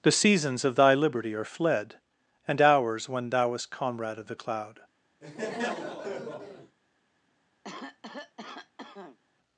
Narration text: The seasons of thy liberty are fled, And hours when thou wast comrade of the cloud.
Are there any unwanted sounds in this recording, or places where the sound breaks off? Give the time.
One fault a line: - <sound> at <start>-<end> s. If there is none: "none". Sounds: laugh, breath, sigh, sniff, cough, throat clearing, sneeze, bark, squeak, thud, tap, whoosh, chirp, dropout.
- laugh at 5.2-6.8 s
- cough at 7.6-9.2 s